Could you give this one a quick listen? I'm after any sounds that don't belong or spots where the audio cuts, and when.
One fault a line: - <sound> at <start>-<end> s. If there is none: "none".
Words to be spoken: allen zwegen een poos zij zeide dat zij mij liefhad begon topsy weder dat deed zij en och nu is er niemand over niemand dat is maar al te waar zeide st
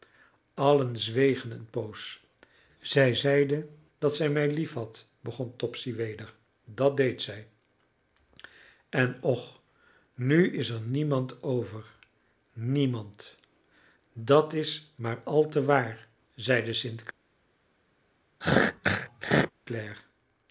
- throat clearing at 18.4-19.5 s